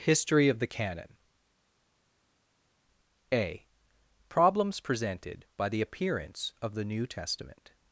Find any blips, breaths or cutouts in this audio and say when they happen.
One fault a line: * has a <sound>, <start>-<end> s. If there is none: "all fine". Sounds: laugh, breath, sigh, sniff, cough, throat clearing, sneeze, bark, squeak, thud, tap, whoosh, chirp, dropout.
all fine